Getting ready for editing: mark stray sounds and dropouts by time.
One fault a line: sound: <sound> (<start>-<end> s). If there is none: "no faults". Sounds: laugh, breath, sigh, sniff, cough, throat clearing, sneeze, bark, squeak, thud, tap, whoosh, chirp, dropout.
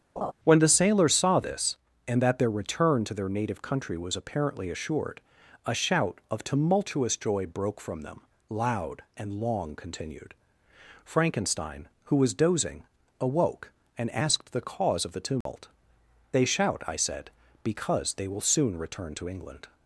sound: laugh (0.2-0.3 s)
sound: dropout (15.4-15.5 s)